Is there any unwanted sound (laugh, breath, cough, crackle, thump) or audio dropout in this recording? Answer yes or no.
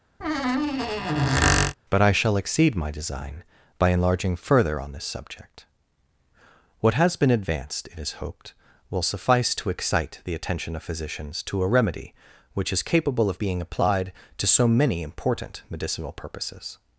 yes